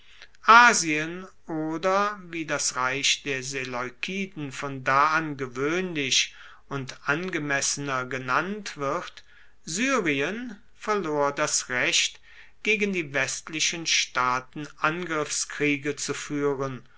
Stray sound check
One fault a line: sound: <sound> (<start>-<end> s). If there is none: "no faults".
no faults